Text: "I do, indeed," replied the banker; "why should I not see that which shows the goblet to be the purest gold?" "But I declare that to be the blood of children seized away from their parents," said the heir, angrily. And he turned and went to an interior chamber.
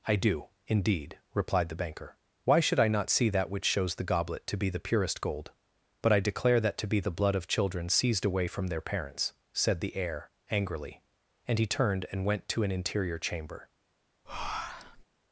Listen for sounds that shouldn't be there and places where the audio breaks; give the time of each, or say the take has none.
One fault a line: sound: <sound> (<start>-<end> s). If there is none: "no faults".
sound: breath (14.3-15.0 s)